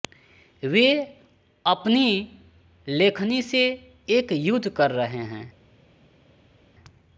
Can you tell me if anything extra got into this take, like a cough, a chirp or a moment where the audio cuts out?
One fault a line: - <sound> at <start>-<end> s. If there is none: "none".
none